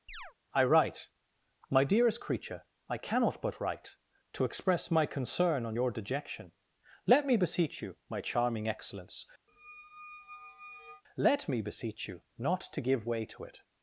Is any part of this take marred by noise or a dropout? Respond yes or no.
yes